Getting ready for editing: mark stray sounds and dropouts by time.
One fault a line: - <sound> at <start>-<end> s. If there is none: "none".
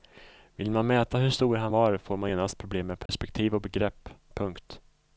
- dropout at 3.1-3.1 s